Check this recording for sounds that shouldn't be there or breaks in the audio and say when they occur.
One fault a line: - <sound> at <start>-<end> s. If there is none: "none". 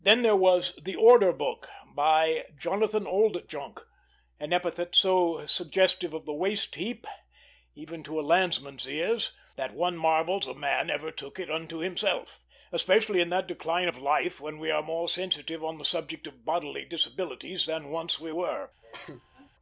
- cough at 18.8-19.5 s